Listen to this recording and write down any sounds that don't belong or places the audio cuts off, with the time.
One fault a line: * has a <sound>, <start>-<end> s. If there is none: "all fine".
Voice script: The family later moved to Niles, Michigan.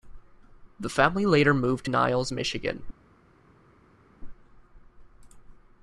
all fine